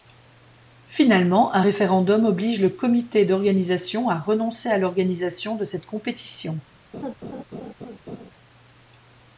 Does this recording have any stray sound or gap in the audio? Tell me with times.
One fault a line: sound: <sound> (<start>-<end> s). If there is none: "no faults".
sound: laugh (6.9-8.3 s)